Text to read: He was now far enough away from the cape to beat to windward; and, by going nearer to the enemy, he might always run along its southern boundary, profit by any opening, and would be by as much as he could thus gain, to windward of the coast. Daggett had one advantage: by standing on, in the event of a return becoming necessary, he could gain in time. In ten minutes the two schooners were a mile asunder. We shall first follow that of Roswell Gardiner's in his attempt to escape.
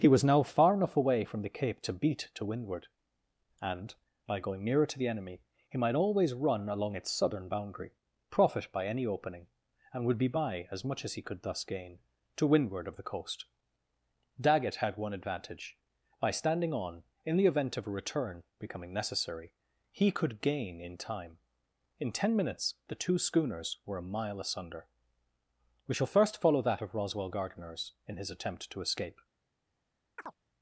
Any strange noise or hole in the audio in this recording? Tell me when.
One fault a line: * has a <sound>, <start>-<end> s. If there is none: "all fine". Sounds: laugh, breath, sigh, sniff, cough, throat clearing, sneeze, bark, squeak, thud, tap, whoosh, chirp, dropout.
* has a chirp, 30.2-30.4 s